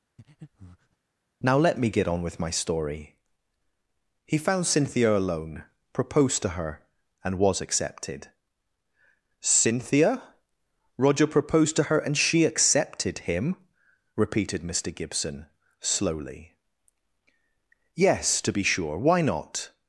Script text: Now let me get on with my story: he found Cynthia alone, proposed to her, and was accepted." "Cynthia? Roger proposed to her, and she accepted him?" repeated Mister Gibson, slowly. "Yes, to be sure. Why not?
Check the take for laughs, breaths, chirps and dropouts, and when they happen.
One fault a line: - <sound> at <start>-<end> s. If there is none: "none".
- breath at 0.2-1.0 s